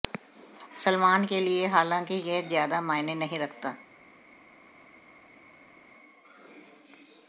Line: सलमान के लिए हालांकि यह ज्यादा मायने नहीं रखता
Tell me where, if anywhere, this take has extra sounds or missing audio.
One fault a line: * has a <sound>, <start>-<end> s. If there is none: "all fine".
all fine